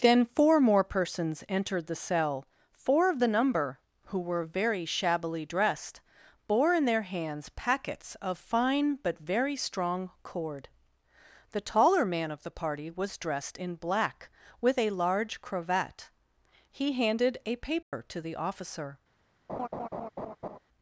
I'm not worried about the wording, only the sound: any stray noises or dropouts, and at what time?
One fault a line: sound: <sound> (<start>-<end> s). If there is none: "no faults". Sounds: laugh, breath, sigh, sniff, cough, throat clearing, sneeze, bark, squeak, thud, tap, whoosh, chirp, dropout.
sound: dropout (17.8-17.9 s)
sound: laugh (19.5-20.6 s)